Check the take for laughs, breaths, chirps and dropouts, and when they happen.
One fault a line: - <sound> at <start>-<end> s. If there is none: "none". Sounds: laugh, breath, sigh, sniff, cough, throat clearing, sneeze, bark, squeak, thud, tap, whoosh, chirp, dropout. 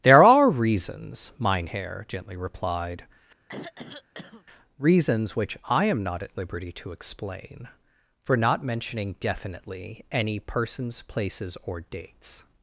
- throat clearing at 3.5-4.5 s